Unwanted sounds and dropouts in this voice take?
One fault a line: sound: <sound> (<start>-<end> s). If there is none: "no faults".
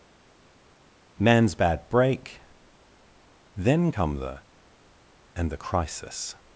no faults